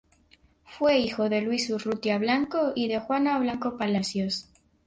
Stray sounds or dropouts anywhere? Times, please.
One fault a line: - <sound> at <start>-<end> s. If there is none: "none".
none